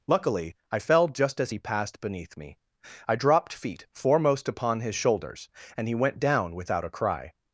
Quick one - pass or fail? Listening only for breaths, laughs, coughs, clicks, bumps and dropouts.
pass